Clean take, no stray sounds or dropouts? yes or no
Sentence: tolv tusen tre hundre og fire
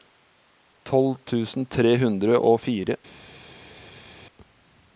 yes